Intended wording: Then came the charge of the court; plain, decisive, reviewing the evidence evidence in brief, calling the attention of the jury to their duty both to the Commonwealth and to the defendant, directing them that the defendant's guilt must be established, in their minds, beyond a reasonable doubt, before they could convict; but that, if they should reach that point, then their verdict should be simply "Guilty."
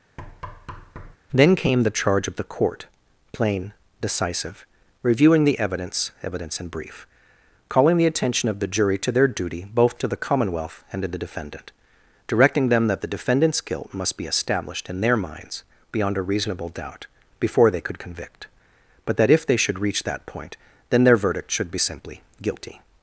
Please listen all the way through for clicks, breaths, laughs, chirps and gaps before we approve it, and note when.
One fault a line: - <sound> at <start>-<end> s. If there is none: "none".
- thud at 0.2-1.2 s